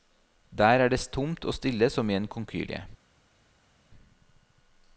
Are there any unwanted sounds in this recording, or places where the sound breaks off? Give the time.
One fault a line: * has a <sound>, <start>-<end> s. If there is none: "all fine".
all fine